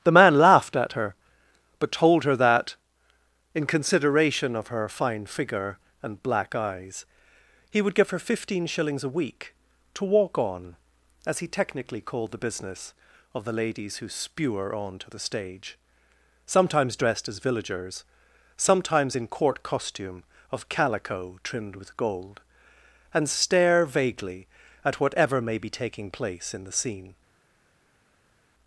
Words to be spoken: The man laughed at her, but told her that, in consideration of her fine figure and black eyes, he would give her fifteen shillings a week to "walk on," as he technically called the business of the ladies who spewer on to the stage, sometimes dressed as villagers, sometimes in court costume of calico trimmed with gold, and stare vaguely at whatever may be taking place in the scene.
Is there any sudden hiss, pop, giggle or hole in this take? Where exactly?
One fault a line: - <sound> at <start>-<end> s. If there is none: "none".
none